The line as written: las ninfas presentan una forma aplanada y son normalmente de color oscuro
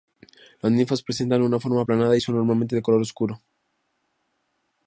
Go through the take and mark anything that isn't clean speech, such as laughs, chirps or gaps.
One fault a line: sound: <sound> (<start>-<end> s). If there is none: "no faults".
no faults